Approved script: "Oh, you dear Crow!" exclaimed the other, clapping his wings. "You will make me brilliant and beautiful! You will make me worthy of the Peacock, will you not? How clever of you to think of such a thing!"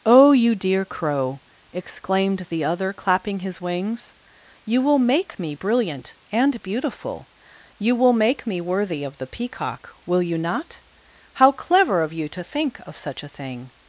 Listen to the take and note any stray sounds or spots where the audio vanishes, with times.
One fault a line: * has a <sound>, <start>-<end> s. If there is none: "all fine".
all fine